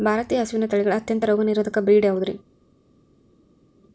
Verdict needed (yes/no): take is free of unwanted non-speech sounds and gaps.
yes